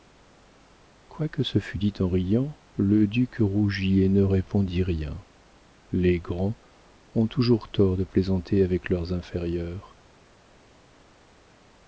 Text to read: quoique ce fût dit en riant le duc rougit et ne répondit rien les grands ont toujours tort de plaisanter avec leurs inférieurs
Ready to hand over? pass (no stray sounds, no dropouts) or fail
pass